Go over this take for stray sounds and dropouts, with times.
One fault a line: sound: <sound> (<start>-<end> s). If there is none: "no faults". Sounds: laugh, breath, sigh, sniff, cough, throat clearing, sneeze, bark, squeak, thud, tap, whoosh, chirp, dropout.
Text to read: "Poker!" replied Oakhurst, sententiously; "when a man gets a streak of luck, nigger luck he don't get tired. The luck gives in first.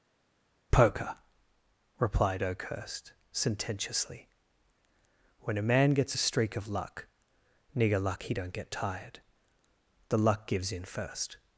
no faults